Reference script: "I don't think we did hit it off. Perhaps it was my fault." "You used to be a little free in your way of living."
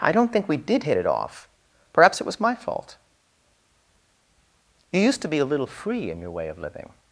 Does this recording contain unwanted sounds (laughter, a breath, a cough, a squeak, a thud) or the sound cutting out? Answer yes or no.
no